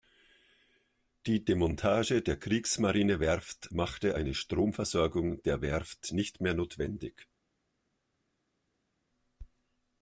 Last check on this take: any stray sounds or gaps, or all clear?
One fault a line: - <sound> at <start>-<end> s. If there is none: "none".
none